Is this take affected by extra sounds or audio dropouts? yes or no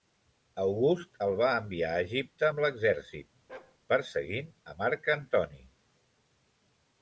yes